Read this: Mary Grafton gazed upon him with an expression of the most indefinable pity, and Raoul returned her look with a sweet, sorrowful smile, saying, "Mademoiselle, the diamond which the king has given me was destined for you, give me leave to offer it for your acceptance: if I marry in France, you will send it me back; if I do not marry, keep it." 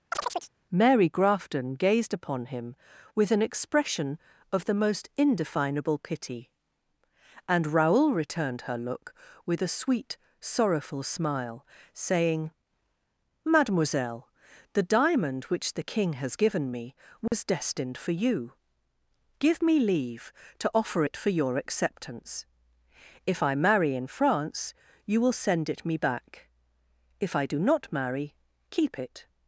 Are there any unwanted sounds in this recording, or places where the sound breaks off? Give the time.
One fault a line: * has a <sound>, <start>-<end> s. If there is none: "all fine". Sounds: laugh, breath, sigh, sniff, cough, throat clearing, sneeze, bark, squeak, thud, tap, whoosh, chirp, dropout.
* has a chirp, 0.1-0.5 s
* has a dropout, 17.3-17.3 s